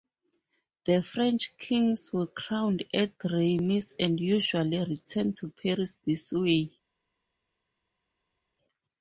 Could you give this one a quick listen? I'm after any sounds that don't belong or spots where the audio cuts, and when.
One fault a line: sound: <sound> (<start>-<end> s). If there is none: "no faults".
no faults